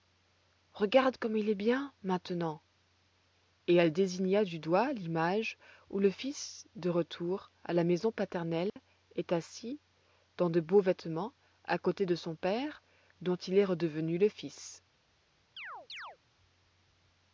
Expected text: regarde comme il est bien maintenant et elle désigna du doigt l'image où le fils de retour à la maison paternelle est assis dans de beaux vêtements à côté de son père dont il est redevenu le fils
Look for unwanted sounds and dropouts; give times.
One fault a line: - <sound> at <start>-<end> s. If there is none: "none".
- dropout at 8.7-8.8 s
- chirp at 15.6-16.2 s